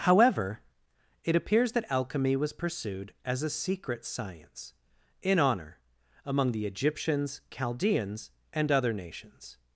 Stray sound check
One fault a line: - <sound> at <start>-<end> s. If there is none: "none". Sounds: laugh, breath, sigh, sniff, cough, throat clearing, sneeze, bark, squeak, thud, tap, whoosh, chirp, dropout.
none